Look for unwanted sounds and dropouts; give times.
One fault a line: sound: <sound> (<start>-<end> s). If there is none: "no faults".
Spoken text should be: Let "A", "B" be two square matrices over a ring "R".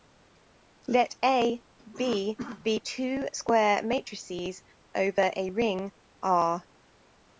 no faults